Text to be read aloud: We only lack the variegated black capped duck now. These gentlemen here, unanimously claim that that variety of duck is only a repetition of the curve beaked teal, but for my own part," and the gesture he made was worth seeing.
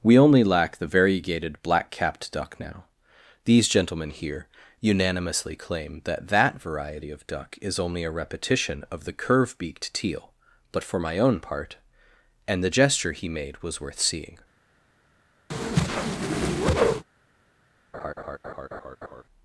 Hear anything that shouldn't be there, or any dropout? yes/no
yes